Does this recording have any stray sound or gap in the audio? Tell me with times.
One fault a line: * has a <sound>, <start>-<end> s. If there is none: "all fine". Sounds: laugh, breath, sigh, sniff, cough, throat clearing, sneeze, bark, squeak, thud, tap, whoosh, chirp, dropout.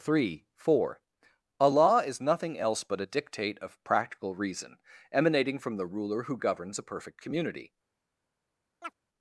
* has a chirp, 8.8-8.9 s